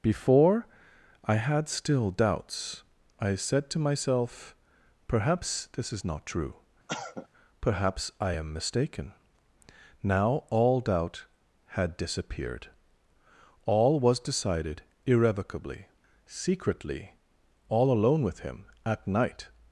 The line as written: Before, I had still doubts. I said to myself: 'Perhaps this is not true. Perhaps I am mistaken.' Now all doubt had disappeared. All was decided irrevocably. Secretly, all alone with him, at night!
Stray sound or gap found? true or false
true